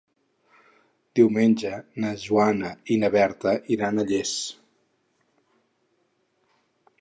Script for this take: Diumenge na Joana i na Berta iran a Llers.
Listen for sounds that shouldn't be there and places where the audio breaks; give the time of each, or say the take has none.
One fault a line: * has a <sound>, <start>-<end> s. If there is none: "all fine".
all fine